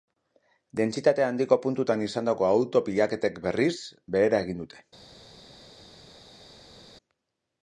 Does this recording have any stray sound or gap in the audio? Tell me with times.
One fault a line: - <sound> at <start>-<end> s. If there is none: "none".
none